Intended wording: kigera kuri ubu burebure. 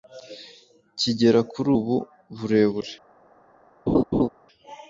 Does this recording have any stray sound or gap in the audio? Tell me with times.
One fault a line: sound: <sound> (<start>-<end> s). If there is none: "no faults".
sound: laugh (3.9-4.3 s)